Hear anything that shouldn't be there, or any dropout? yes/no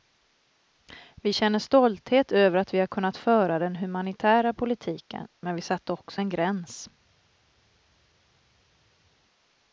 no